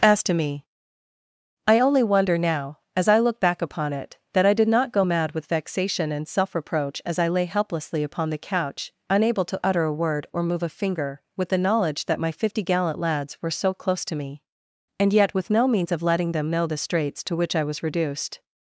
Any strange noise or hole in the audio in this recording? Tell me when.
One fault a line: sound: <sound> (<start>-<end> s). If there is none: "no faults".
no faults